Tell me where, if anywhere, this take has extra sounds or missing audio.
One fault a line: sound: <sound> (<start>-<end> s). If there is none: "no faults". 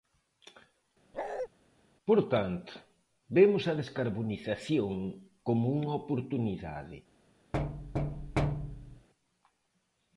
sound: bark (1.1-1.5 s)
sound: thud (7.5-9.1 s)